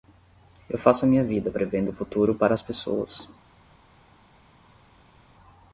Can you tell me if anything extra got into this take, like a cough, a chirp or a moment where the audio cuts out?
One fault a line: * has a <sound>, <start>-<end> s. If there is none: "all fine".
all fine